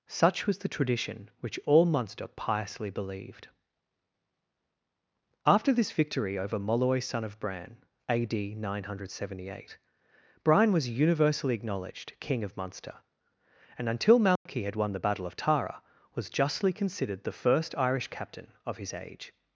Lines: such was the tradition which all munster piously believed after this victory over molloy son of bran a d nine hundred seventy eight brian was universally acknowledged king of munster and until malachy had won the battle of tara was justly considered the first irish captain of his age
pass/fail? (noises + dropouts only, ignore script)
fail